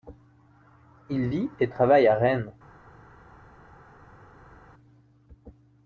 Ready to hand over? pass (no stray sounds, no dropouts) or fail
pass